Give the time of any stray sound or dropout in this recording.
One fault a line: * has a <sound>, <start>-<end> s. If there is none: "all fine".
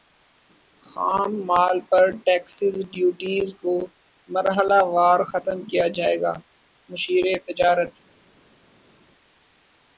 all fine